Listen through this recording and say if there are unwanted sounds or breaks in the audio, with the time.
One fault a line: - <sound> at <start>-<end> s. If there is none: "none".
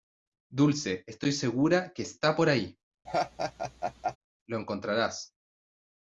- laugh at 3.1-4.2 s